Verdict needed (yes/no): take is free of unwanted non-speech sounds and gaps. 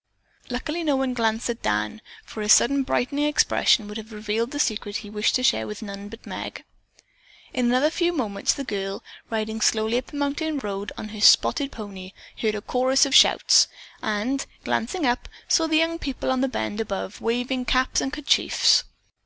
yes